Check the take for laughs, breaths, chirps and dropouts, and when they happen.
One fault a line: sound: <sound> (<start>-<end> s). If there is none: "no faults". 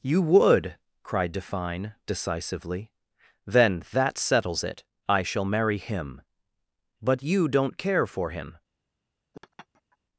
sound: laugh (9.3-10.0 s)